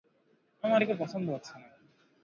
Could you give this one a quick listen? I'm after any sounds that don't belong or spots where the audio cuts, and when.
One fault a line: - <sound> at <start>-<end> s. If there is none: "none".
none